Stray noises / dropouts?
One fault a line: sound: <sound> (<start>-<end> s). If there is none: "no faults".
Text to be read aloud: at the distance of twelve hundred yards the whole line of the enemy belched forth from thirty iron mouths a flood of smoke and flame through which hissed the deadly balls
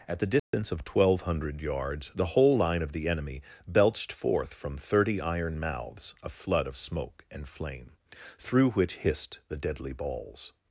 sound: dropout (0.4-0.5 s)